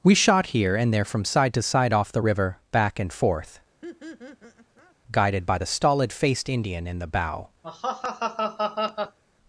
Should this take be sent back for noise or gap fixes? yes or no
yes